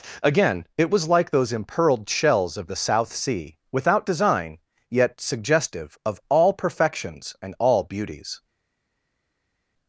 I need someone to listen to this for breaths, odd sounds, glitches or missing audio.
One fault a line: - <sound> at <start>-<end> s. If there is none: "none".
none